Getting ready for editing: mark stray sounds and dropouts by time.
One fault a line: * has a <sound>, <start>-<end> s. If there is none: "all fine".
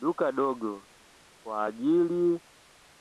all fine